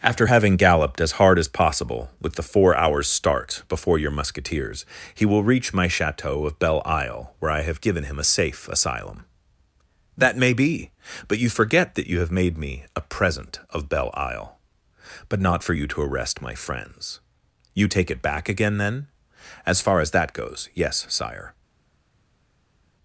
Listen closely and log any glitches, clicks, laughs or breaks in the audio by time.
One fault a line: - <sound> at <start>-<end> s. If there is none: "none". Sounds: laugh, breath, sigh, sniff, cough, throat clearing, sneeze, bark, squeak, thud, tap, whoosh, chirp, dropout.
none